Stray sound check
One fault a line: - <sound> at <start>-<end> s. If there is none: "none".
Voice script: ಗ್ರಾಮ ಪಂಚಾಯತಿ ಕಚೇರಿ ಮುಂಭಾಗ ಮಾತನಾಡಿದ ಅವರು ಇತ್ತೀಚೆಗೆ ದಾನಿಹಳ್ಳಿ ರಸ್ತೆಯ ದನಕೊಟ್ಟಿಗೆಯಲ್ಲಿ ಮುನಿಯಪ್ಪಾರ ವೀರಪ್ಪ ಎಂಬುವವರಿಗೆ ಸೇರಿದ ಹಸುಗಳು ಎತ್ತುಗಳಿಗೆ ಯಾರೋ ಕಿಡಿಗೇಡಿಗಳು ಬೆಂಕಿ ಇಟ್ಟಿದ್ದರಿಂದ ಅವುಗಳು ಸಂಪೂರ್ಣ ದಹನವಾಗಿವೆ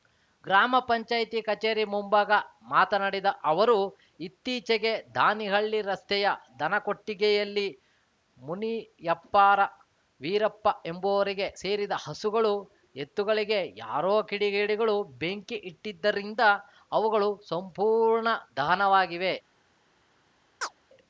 - chirp at 20.6-20.8 s